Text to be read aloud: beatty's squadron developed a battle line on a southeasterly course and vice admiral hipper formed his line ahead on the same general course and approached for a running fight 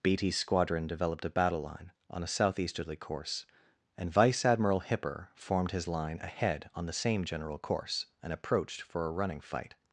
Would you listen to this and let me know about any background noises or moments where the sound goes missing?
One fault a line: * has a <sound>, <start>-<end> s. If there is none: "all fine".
all fine